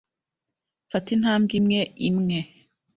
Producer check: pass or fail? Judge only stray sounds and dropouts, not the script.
pass